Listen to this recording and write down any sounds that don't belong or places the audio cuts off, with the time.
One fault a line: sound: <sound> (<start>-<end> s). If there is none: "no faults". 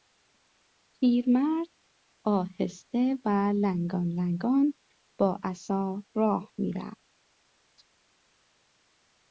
no faults